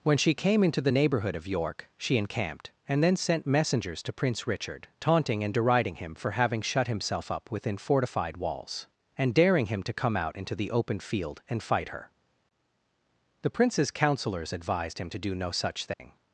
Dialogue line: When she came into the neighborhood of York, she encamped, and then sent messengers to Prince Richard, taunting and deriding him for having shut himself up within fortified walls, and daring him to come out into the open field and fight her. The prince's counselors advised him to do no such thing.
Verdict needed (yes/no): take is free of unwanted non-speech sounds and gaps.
no